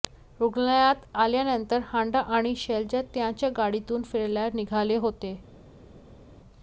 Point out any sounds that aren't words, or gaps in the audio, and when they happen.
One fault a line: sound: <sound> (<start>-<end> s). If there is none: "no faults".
no faults